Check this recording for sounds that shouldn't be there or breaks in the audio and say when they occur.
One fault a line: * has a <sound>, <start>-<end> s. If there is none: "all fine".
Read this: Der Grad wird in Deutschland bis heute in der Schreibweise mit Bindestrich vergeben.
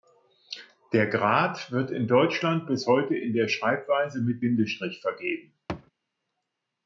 * has a thud, 5.7-5.9 s